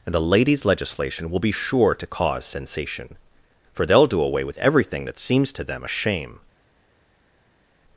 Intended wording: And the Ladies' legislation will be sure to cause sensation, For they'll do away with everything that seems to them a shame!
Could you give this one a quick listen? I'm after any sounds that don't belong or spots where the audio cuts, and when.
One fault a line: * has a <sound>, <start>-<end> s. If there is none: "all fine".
all fine